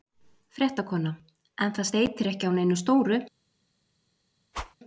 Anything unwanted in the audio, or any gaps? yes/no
yes